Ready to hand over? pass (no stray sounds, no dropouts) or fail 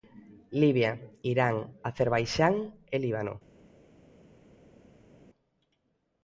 pass